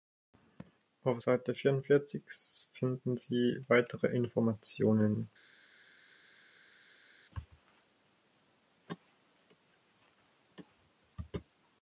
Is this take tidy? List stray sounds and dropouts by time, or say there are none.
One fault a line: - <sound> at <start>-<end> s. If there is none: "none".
none